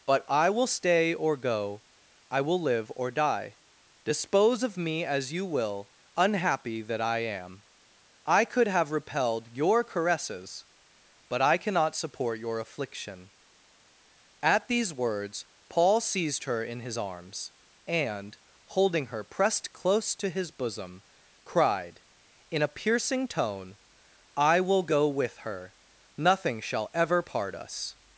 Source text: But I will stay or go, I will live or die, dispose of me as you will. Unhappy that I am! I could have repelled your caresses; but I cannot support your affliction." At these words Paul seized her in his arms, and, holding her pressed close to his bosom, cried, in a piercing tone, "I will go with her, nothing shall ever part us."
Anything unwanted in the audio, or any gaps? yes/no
no